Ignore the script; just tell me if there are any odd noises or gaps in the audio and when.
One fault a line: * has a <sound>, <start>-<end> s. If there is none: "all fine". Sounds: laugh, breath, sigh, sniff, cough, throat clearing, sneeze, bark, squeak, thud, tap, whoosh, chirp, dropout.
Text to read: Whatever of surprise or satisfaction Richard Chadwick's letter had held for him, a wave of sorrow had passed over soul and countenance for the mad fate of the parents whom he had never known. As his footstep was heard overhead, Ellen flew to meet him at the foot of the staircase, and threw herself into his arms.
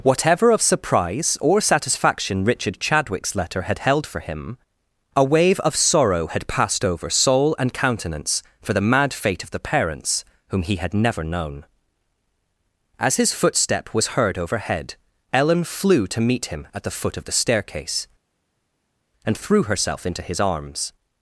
all fine